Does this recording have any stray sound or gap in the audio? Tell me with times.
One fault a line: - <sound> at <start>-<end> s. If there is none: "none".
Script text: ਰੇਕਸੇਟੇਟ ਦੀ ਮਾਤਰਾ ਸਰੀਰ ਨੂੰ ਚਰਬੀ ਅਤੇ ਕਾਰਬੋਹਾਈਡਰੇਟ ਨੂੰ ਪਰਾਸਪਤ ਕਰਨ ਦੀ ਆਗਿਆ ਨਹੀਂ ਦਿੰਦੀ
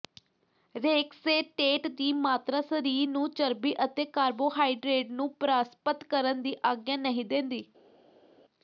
none